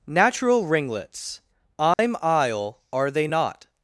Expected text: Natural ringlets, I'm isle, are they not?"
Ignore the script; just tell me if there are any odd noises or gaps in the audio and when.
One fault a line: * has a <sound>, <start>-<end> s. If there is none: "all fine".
* has a dropout, 1.9-2.0 s